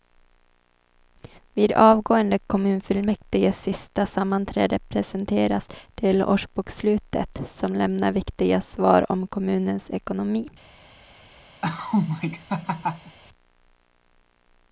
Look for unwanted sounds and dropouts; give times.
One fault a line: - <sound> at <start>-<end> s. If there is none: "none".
- laugh at 11.6-13.2 s